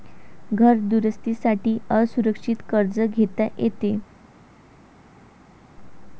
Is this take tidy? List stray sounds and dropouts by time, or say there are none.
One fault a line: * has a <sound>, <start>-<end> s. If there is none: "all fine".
all fine